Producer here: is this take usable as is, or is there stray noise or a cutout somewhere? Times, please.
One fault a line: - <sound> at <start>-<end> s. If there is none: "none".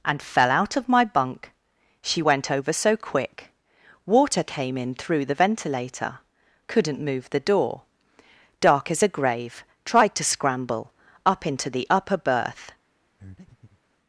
- breath at 13.2-13.8 s